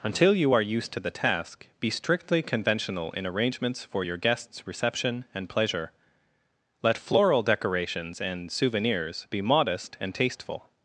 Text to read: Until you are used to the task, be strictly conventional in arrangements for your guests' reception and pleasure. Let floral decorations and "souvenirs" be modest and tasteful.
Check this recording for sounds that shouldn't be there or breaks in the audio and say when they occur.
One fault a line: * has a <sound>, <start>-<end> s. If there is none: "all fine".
all fine